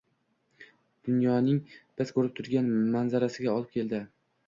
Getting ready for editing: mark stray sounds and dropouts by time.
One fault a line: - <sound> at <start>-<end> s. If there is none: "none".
none